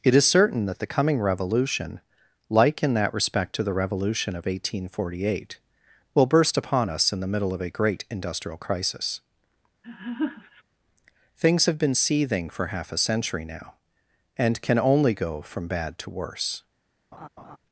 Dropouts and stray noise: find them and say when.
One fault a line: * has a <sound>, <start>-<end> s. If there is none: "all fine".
* has a laugh, 9.8-10.6 s
* has a laugh, 17.1-17.6 s